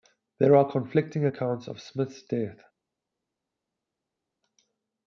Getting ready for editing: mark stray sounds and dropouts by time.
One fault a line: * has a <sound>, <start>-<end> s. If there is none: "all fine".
all fine